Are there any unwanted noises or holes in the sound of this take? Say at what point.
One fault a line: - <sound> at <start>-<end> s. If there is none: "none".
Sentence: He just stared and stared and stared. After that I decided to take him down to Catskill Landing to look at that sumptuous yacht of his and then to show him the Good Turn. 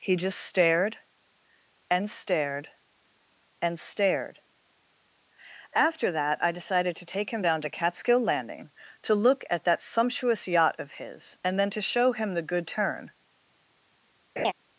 - laugh at 14.4-14.5 s